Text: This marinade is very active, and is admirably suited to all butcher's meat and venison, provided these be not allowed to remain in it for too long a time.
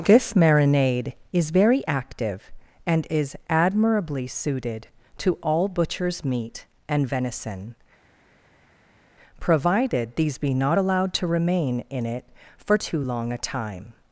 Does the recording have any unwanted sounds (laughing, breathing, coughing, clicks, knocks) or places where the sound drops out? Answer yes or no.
no